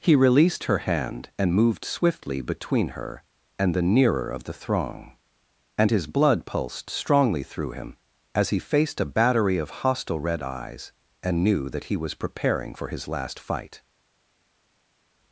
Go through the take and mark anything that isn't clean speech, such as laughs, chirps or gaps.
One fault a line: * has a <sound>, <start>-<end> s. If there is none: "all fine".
all fine